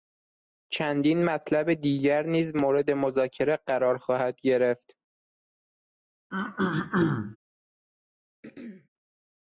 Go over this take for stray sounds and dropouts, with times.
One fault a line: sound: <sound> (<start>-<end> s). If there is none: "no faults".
sound: throat clearing (6.3-7.4 s)
sound: throat clearing (8.4-8.9 s)